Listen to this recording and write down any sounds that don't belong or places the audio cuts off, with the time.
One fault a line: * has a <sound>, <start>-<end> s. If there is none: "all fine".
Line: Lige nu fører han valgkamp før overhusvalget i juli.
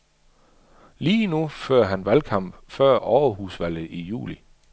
all fine